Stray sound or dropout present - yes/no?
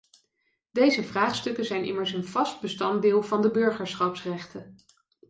no